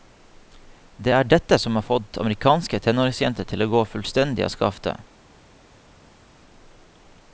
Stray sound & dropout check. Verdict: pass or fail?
pass